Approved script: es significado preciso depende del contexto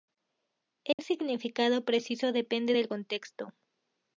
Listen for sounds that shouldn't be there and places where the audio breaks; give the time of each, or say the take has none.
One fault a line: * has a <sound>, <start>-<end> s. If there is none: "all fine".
* has a dropout, 0.9-1.0 s